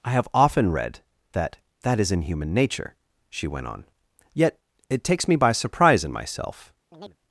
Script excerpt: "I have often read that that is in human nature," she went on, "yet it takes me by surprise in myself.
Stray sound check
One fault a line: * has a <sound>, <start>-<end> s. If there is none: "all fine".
* has a chirp, 6.9-7.2 s